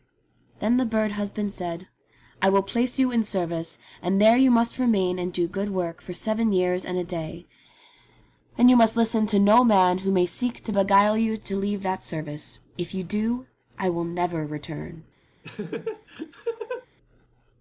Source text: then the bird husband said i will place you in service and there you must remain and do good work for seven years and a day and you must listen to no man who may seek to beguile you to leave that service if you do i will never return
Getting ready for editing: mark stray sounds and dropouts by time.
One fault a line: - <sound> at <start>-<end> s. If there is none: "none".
- laugh at 15.4-16.9 s